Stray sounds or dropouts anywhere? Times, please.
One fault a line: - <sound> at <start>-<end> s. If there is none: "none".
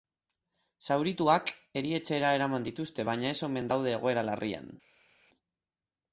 none